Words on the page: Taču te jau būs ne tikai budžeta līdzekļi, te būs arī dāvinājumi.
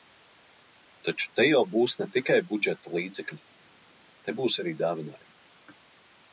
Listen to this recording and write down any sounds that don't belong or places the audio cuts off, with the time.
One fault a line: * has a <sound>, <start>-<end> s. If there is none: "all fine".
all fine